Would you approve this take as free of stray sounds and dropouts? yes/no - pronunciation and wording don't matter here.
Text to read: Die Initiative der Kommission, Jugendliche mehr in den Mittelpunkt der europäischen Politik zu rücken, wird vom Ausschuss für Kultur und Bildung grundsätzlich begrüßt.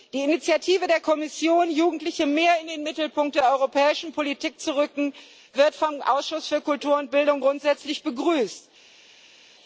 yes